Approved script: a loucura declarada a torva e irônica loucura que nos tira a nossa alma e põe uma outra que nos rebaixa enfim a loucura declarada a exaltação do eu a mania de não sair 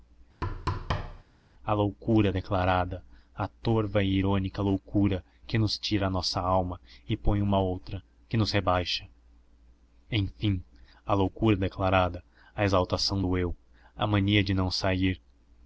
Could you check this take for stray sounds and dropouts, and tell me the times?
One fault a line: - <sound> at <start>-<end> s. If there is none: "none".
- thud at 0.4-1.2 s